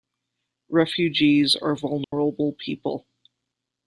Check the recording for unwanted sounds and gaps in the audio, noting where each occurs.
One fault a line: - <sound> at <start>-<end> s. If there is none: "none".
- dropout at 2.0-2.1 s